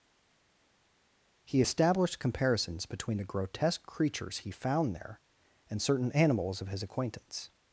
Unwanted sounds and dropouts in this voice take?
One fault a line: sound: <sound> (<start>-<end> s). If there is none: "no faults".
no faults